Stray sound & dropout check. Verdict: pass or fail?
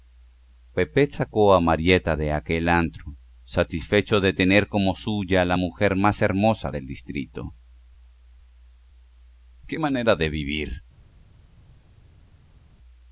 pass